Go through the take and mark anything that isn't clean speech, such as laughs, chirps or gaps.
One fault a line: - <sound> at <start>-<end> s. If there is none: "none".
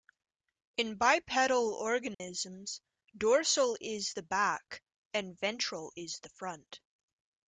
- dropout at 2.1-2.2 s